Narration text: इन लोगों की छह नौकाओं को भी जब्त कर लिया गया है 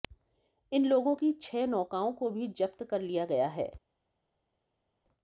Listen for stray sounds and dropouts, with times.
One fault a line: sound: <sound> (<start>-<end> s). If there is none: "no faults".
no faults